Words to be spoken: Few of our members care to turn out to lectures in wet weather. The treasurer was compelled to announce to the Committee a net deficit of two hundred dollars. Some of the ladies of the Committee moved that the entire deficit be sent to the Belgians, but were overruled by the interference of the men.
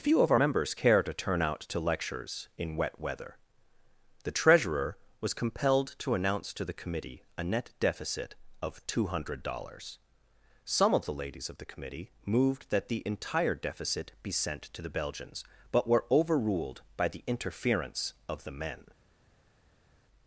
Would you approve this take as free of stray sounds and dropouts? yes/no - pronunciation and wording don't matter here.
yes